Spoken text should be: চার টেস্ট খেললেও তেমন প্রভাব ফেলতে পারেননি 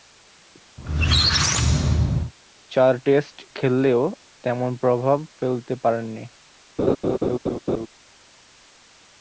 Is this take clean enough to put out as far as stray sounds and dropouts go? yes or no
no